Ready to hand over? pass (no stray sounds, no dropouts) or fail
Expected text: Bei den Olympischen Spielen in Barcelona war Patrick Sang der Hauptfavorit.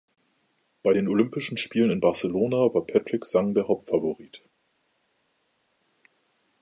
pass